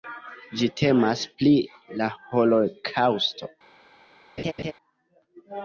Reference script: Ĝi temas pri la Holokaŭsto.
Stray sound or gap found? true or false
true